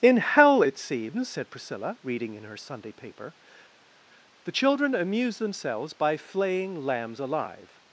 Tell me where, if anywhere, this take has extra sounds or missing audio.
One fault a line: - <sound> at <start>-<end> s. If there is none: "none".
none